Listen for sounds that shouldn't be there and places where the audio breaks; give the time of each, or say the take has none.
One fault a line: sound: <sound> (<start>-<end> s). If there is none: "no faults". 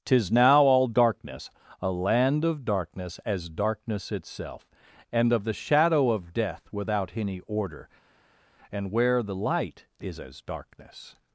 no faults